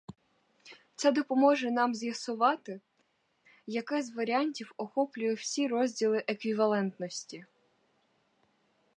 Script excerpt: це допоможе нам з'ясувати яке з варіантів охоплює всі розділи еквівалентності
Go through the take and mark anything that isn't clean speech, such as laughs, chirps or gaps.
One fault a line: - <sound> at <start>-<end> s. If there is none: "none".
none